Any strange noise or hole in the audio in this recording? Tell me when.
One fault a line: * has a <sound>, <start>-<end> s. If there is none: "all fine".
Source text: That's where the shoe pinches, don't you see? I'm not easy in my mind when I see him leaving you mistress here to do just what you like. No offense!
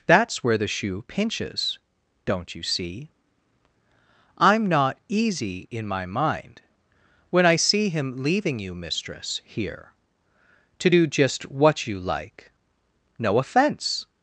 all fine